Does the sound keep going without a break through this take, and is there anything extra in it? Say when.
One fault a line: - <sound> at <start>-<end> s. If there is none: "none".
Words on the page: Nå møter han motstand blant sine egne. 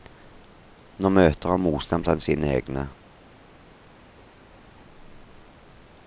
none